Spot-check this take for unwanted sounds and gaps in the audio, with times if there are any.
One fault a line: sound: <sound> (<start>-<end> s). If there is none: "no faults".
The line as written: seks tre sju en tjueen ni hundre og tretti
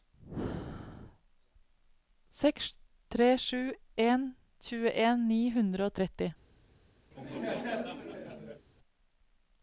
sound: laugh (7.1-8.7 s)